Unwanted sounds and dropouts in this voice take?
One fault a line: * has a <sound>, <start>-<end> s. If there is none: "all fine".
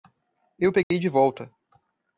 * has a dropout, 0.8-0.9 s